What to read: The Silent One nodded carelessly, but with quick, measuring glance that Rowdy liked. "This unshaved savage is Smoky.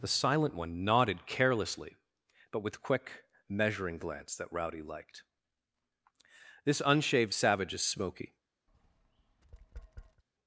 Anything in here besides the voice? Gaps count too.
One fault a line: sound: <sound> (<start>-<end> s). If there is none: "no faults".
sound: tap (8.7-10.2 s)